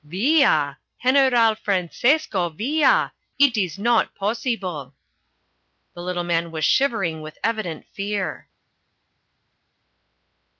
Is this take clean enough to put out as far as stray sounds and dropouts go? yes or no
yes